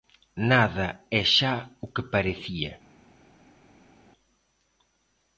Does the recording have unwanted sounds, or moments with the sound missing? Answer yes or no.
no